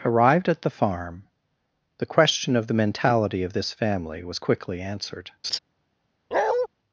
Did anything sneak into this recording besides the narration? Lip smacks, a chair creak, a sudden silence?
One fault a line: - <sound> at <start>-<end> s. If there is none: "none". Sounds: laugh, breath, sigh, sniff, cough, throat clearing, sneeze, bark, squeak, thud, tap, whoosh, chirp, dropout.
- laugh at 5.4-5.6 s
- bark at 6.3-6.7 s